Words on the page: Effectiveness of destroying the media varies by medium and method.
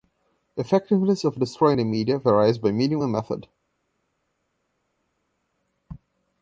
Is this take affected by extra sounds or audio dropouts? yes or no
no